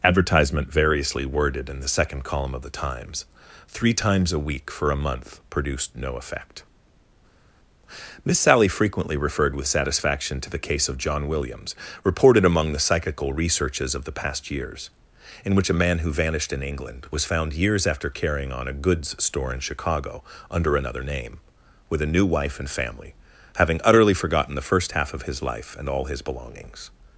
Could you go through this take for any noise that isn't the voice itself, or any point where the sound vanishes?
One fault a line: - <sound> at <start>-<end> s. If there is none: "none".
none